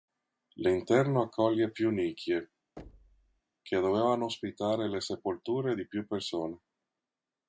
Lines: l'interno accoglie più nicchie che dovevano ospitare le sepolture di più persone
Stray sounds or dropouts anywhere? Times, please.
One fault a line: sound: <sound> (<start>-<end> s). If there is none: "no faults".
sound: thud (2.8-3.4 s)